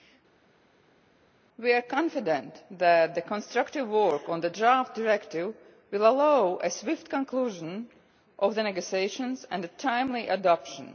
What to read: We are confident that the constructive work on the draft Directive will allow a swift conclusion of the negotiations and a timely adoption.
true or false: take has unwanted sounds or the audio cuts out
false